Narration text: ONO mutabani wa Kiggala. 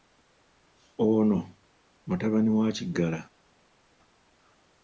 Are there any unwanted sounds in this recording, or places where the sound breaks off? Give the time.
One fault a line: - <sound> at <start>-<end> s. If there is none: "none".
none